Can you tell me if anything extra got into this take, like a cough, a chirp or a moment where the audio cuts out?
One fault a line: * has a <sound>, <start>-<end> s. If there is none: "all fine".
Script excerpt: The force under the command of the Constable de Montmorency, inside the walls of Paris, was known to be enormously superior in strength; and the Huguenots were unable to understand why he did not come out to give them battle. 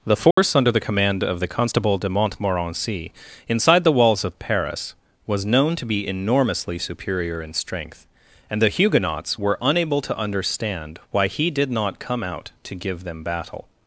* has a dropout, 0.3-0.4 s